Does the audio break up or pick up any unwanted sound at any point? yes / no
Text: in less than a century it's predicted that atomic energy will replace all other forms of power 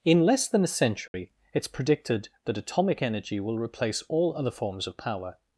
yes